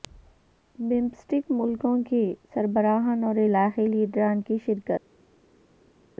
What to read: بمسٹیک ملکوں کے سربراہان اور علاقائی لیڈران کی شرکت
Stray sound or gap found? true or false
false